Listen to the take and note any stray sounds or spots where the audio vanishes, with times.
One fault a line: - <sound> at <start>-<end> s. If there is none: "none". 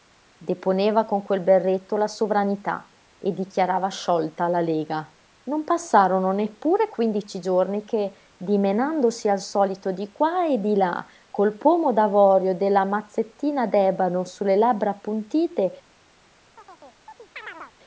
- chirp at 16.6-17.7 s